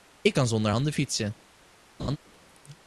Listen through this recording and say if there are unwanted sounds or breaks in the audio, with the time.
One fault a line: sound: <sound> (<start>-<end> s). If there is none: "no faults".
sound: laugh (2.0-2.2 s)